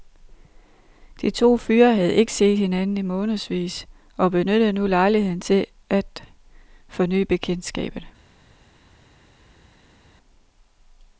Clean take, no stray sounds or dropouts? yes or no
yes